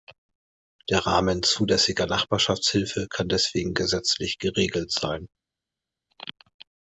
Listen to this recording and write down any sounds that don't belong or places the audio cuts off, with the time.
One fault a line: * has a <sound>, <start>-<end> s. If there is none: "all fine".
all fine